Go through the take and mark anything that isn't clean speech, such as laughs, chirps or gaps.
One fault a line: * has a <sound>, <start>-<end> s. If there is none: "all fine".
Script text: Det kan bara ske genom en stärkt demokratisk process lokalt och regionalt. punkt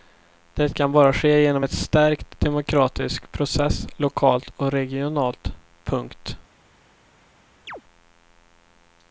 * has a chirp, 7.7-7.8 s